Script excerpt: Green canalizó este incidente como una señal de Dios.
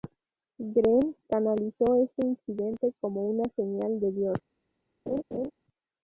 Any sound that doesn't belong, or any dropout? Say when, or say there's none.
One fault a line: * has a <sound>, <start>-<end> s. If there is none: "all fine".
* has a laugh, 5.1-5.5 s